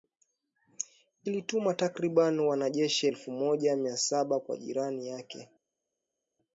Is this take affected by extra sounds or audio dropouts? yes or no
no